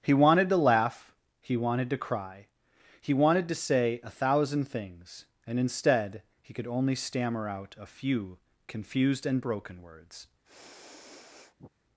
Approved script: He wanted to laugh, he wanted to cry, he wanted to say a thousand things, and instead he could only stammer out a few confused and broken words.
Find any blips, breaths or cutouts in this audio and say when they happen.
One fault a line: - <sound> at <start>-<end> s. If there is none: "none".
- sniff at 10.4-11.7 s